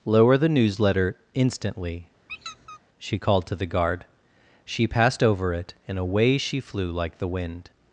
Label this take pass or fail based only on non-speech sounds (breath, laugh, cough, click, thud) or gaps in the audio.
fail